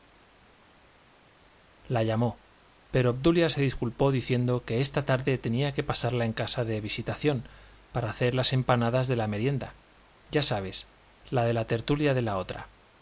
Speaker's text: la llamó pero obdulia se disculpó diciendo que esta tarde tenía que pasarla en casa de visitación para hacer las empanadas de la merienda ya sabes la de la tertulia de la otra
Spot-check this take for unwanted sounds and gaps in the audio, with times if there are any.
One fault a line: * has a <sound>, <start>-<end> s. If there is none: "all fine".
all fine